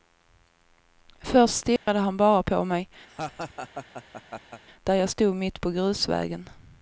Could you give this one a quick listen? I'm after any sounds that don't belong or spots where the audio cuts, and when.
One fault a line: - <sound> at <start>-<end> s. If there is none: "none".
- dropout at 1.8-1.9 s
- laugh at 3.1-4.6 s